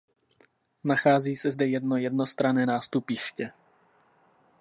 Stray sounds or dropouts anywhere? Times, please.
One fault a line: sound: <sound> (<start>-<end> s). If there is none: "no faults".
no faults